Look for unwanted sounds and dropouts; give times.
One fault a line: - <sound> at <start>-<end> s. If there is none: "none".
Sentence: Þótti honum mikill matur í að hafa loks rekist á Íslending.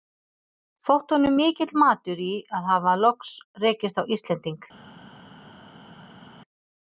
none